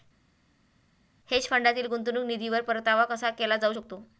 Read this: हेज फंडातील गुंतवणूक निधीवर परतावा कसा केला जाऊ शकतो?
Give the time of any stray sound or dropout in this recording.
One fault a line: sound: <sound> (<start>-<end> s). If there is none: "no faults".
no faults